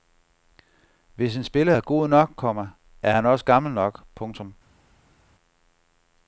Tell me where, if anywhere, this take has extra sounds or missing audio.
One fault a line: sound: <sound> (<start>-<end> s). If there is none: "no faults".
no faults